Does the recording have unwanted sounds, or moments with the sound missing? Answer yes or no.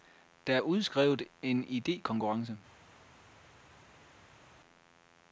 no